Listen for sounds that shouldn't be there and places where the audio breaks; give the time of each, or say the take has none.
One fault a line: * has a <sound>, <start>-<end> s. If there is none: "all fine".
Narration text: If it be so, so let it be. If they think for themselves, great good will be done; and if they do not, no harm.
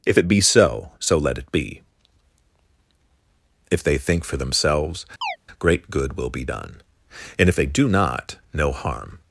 * has a chirp, 5.2-5.4 s